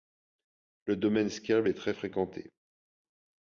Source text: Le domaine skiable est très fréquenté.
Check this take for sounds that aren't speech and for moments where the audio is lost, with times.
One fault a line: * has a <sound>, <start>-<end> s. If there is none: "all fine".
all fine